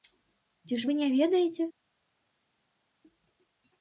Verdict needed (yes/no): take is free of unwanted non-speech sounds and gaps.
yes